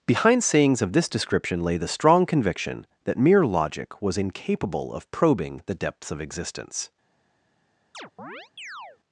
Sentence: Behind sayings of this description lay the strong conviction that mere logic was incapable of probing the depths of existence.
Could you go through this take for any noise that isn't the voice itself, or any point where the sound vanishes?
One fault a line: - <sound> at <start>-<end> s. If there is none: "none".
- chirp at 7.9-9.0 s